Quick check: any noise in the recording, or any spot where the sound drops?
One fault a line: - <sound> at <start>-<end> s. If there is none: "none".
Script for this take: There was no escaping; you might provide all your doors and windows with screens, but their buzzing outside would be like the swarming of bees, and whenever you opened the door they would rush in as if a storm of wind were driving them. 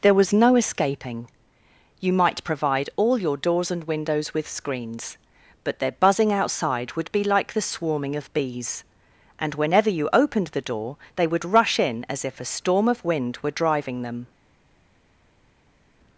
none